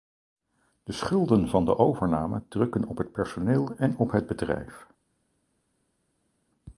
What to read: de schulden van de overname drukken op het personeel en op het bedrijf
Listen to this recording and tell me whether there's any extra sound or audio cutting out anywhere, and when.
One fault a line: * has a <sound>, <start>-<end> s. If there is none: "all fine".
all fine